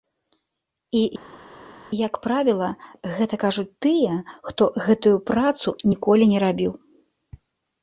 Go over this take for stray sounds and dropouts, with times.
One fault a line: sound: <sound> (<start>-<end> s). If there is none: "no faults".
no faults